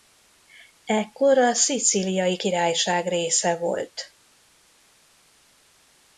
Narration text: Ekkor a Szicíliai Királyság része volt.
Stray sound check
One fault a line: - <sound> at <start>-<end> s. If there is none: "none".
none